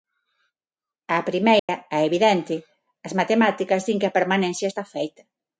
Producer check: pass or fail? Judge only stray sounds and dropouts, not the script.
fail